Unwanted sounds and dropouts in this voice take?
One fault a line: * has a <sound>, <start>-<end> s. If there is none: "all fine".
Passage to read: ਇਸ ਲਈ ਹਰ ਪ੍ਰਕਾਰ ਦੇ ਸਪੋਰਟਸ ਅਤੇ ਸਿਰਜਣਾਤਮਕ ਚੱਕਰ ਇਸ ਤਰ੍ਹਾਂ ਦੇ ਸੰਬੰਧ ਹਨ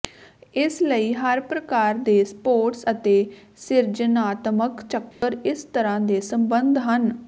* has a dropout, 5.1-5.2 s